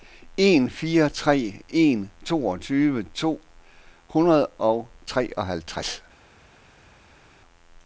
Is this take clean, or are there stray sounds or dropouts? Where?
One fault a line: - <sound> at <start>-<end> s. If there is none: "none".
none